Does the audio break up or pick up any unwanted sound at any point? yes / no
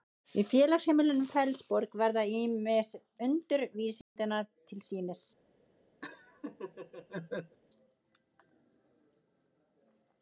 yes